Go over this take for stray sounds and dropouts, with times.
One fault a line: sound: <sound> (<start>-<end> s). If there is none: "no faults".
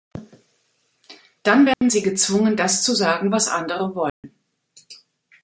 sound: dropout (1.7-1.8 s)
sound: dropout (4.1-4.2 s)